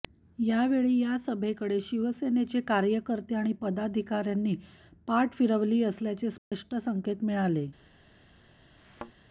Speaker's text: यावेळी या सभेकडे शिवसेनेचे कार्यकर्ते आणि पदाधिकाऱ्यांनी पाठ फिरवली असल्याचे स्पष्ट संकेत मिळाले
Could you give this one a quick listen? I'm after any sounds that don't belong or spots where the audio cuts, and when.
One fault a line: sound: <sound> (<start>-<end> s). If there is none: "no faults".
sound: dropout (6.4-6.5 s)
sound: thud (8.8-9.1 s)